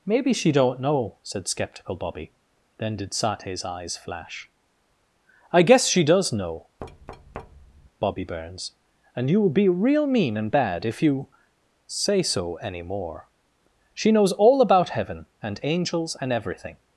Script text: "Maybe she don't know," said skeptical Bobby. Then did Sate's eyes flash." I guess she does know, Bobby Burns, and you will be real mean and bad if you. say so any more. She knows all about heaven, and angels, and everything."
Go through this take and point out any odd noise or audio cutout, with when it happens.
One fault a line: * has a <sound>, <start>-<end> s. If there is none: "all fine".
* has a thud, 6.8-7.9 s